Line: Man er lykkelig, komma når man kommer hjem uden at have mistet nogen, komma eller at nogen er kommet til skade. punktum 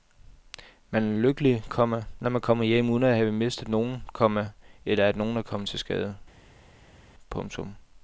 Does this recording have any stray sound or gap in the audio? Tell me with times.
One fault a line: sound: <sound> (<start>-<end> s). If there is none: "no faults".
no faults